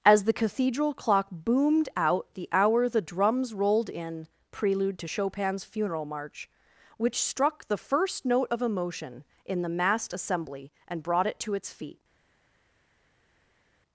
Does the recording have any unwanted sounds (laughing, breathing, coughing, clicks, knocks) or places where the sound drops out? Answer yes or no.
no